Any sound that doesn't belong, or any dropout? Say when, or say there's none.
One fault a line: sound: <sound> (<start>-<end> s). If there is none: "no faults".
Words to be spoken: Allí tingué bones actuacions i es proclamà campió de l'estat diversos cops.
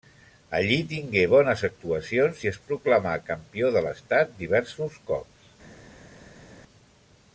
no faults